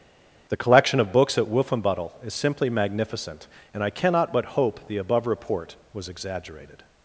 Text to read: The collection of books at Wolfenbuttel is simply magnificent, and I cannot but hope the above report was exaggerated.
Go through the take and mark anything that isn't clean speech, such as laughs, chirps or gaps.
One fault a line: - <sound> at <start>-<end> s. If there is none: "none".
none